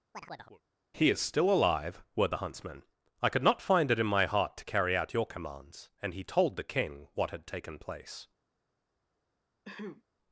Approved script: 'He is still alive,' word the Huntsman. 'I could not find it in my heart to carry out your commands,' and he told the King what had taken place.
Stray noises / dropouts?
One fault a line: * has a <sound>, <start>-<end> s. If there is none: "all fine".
* has a chirp, 0.1-0.6 s
* has a throat clearing, 9.7-10.0 s